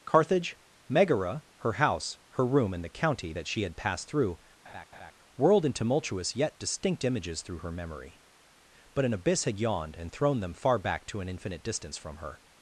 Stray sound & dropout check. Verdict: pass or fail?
fail